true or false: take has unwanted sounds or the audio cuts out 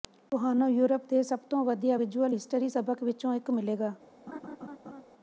true